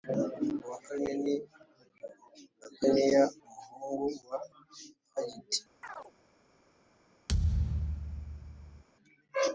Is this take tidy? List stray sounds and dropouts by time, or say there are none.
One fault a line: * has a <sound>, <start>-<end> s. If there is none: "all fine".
* has a chirp, 5.8-6.1 s
* has a thud, 7.3-8.8 s